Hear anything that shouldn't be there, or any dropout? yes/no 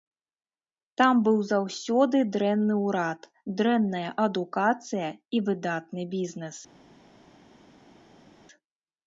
no